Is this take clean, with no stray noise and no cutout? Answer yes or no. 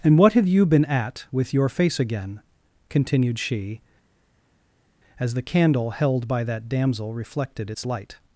yes